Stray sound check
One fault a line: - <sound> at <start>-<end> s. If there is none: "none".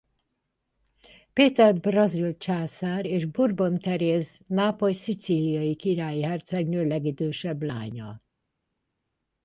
none